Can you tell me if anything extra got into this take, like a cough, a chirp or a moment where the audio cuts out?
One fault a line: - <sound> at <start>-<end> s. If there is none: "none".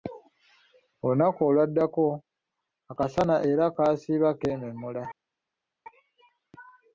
none